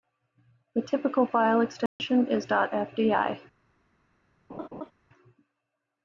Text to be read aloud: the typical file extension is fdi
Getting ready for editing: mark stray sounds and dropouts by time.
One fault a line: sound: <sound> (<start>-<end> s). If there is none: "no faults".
sound: dropout (1.9-2.0 s)
sound: laugh (4.5-4.9 s)